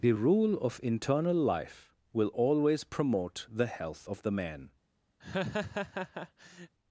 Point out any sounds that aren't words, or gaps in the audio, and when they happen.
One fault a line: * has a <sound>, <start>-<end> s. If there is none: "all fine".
* has a laugh, 5.2-6.7 s